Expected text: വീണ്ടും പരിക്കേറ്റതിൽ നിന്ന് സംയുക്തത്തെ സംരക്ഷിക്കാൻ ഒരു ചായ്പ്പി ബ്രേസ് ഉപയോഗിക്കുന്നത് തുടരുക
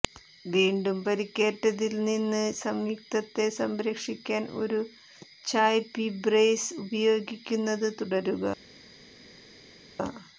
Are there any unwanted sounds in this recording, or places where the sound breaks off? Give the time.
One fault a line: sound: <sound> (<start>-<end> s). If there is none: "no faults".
no faults